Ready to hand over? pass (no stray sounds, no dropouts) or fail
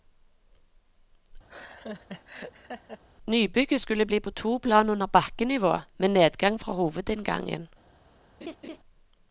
fail